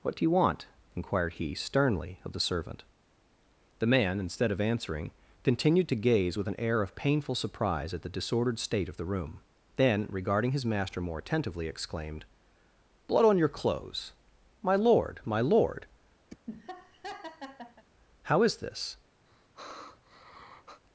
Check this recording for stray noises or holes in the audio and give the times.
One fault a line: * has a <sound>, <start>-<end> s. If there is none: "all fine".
* has a laugh, 16.3-17.8 s
* has a sigh, 19.3-20.8 s